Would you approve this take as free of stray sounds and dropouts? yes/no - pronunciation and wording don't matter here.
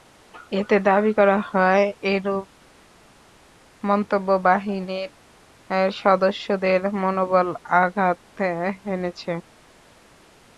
yes